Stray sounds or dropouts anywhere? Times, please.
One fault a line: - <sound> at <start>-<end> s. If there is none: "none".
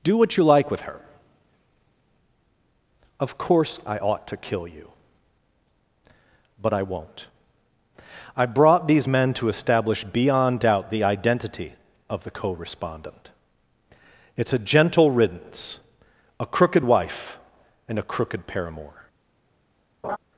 - laugh at 20.0-20.2 s